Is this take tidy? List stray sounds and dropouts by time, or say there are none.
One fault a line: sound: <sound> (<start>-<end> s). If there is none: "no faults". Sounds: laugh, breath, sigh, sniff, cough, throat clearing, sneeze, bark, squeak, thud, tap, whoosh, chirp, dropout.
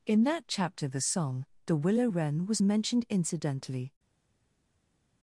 no faults